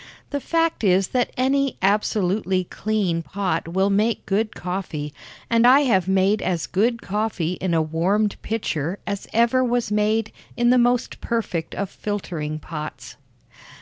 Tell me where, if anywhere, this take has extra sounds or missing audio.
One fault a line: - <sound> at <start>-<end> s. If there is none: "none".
none